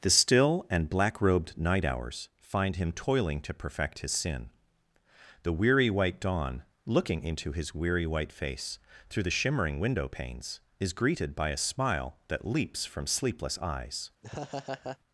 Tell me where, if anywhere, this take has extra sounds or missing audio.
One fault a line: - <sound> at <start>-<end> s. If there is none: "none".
- laugh at 14.2-15.0 s